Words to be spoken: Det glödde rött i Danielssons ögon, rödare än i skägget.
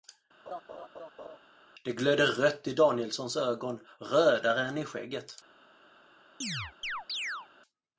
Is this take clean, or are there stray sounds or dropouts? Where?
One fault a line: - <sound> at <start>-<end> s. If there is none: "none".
- laugh at 0.5-1.4 s
- chirp at 6.4-7.5 s